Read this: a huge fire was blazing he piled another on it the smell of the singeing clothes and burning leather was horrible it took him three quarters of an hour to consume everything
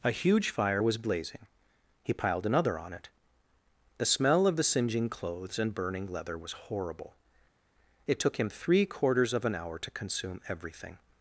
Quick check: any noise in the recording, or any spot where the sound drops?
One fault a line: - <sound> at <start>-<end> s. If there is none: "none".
none